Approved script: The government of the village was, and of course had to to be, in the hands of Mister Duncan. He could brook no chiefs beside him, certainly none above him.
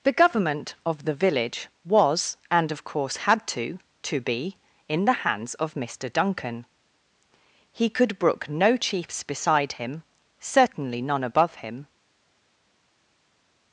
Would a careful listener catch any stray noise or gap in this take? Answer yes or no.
no